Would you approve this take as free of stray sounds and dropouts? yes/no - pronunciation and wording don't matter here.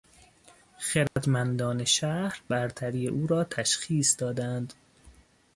no